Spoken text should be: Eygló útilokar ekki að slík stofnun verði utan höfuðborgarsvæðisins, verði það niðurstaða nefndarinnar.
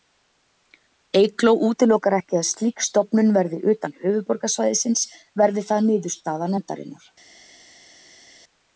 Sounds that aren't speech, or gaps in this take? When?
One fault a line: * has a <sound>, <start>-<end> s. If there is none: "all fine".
all fine